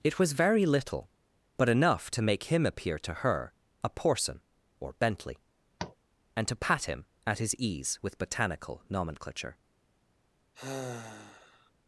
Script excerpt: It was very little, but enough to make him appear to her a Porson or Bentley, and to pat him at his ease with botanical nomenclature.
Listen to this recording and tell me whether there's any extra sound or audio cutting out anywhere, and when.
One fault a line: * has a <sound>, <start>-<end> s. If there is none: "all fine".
* has a tap, 5.8-6.0 s
* has a sigh, 10.5-11.7 s